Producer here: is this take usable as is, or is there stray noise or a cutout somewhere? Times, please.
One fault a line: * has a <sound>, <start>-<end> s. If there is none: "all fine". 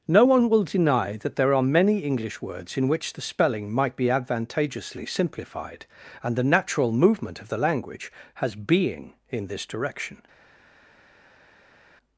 all fine